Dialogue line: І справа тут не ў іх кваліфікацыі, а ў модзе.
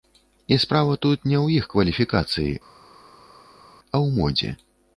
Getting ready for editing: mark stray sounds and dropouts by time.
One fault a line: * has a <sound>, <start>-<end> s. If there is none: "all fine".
all fine